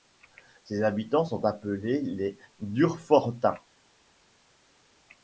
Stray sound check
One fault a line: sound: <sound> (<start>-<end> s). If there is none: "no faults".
no faults